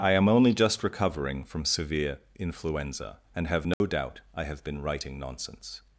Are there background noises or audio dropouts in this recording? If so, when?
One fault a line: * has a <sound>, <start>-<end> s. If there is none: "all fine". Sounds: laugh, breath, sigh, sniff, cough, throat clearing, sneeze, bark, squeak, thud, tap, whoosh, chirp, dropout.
* has a dropout, 3.7-3.8 s